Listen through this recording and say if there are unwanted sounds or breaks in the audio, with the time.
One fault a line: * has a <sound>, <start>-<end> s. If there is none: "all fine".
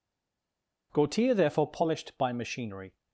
all fine